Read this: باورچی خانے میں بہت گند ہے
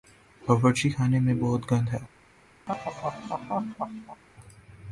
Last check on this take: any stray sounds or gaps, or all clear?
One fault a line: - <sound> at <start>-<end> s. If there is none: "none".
- laugh at 2.7-4.2 s